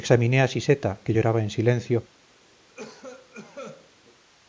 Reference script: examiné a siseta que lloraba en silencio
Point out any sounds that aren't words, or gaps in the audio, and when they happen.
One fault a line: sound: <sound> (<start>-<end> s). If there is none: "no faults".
sound: cough (2.7-3.9 s)